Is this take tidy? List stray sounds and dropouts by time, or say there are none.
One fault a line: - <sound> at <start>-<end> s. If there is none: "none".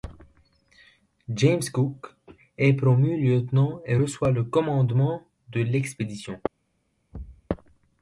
- thud at 7.1-7.5 s